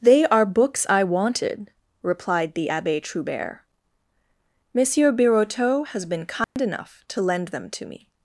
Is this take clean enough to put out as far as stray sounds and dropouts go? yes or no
no